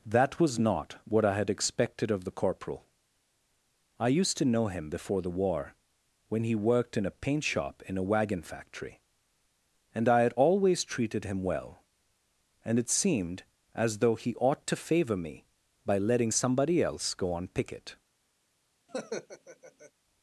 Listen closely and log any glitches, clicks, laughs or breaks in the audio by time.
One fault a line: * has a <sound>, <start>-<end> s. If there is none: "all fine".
* has a laugh, 18.9-19.9 s